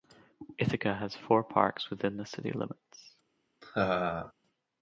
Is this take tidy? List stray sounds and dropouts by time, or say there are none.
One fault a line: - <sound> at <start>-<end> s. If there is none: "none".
- laugh at 3.6-4.3 s